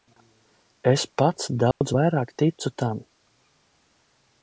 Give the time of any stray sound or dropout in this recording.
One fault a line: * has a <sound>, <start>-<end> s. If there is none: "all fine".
* has a dropout, 1.7-1.8 s